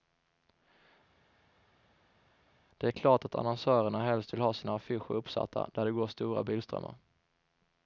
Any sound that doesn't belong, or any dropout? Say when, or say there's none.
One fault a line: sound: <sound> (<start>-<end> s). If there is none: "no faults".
no faults